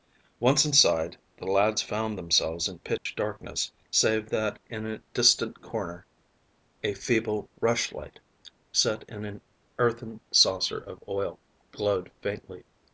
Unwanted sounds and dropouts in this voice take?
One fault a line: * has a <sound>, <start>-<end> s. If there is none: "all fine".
* has a dropout, 3.0-3.1 s